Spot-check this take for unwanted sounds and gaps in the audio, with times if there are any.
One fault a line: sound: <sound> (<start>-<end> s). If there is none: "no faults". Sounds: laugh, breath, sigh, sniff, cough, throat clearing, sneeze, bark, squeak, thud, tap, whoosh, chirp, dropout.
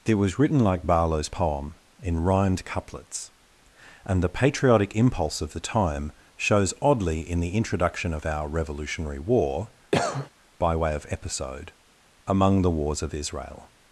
sound: cough (9.9-10.3 s)